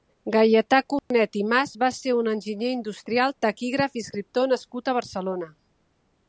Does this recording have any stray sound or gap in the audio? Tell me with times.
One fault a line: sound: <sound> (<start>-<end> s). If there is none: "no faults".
sound: dropout (1.0-1.1 s)